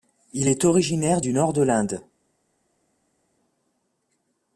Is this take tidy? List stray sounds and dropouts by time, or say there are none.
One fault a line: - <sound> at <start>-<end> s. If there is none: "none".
none